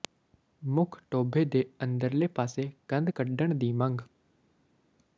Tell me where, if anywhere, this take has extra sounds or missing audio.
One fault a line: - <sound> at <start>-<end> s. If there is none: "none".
none